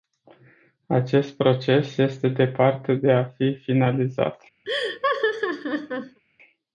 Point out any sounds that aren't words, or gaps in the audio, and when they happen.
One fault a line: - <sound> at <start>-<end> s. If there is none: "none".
- laugh at 4.6-6.2 s